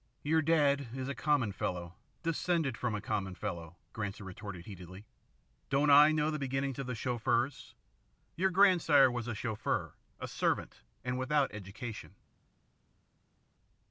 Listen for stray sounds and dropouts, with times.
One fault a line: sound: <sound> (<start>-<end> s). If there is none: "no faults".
no faults